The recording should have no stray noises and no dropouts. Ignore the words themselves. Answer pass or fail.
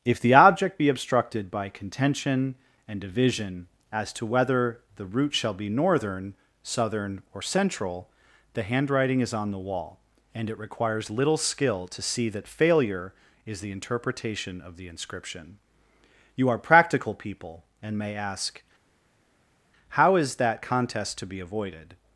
pass